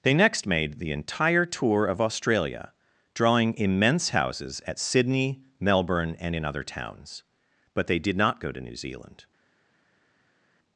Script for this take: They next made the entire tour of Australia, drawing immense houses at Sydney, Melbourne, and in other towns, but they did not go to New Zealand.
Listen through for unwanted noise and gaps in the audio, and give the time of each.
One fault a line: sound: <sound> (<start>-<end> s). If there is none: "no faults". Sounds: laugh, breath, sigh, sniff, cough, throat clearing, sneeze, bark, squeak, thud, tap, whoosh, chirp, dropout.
no faults